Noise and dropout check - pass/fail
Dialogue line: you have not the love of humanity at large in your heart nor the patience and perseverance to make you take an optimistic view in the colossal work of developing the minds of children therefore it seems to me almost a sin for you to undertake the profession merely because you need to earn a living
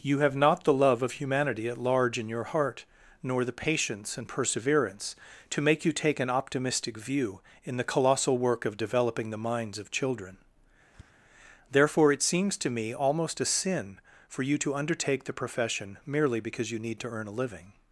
fail